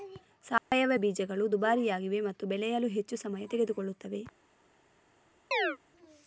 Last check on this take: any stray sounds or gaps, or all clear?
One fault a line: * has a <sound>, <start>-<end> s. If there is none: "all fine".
* has a dropout, 0.6-0.7 s
* has a chirp, 5.5-5.8 s